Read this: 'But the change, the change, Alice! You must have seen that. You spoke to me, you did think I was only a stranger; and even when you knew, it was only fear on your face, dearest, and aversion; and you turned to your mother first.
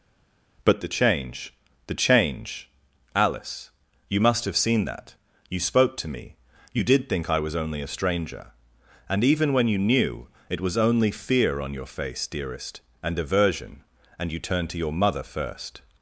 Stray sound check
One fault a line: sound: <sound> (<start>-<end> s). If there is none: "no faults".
no faults